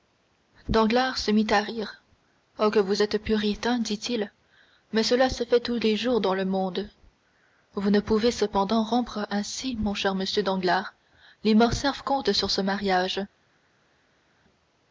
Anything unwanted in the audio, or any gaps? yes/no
no